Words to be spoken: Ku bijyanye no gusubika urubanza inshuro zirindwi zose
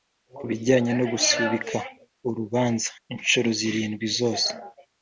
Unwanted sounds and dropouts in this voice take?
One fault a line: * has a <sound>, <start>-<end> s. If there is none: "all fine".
all fine